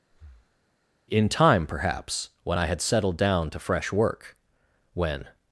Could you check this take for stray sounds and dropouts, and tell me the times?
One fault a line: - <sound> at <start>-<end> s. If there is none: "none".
- breath at 0.1-0.6 s